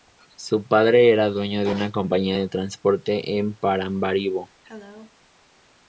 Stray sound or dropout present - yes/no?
yes